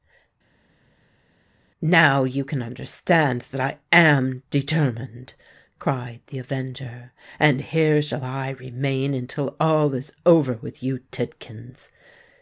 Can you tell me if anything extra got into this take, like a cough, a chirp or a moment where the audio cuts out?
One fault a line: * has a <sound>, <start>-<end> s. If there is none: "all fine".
all fine